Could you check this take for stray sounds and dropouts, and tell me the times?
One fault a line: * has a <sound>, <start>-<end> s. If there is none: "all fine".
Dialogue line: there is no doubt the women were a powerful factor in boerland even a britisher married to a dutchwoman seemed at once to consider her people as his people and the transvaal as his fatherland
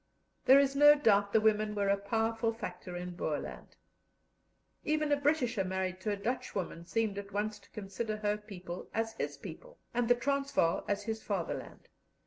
all fine